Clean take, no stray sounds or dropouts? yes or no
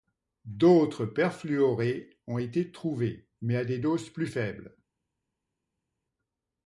yes